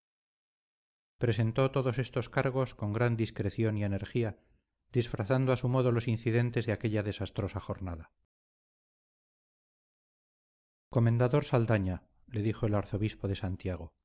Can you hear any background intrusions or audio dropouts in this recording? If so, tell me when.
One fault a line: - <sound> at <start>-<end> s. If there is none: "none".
none